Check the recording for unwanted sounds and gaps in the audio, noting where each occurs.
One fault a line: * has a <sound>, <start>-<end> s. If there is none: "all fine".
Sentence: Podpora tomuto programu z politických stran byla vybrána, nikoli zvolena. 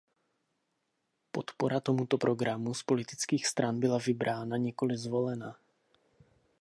all fine